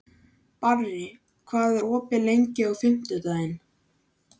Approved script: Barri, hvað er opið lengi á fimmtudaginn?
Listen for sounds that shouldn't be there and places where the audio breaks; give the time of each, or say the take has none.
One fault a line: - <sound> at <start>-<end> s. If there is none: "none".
none